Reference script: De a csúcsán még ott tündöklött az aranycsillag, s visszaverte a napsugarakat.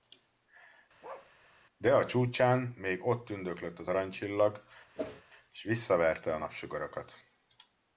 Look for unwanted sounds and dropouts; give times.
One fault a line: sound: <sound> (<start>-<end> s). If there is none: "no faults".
sound: bark (1.0-1.3 s)
sound: whoosh (5.0-5.2 s)